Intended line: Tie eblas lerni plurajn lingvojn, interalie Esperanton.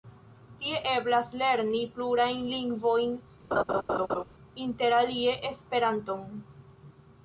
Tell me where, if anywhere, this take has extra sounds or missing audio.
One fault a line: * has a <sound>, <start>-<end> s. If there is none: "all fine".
* has a laugh, 3.5-4.2 s